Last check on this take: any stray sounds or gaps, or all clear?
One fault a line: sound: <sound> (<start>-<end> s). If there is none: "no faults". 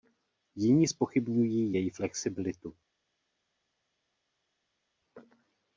no faults